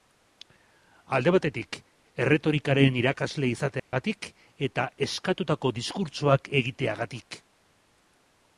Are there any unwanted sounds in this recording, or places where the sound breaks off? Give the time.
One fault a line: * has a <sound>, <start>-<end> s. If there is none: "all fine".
* has a dropout, 3.8-3.9 s